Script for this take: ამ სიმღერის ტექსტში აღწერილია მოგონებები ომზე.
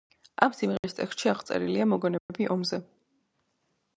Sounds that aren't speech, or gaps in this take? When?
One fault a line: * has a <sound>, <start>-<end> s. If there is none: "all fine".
* has a dropout, 0.8-0.8 s
* has a dropout, 2.2-2.3 s